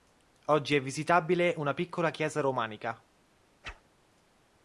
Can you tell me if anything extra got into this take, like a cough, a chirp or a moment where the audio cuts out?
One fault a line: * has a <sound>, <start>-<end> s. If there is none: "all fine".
* has a whoosh, 3.6-3.8 s